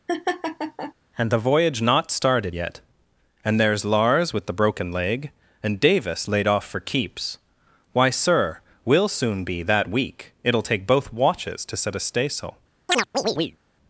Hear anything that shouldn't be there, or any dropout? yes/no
yes